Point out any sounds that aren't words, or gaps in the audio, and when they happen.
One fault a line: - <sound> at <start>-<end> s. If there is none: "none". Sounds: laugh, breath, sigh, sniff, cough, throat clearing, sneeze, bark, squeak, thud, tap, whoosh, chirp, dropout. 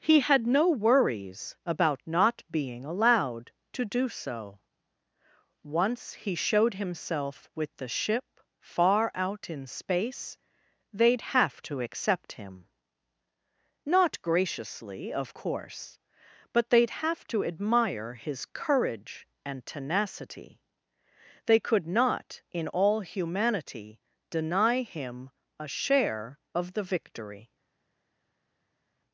none